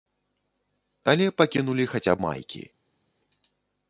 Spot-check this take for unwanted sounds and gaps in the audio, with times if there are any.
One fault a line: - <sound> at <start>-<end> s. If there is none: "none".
none